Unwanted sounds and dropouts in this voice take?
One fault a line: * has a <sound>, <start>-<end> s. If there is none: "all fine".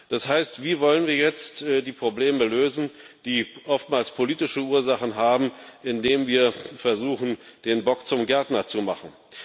all fine